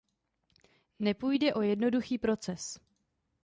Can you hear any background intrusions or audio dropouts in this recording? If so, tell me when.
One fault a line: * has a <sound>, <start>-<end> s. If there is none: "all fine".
all fine